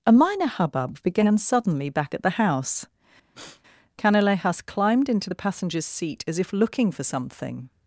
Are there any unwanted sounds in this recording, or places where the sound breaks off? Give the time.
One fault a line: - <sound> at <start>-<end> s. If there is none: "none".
- sniff at 3.3-3.6 s